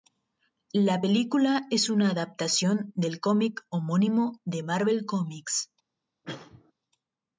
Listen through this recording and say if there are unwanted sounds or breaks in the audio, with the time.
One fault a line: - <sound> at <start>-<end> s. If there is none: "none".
- cough at 6.2-6.7 s